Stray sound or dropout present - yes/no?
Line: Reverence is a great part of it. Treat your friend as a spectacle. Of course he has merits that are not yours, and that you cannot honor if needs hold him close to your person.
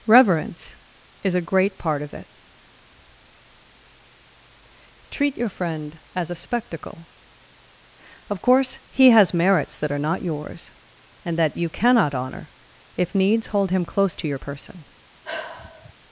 yes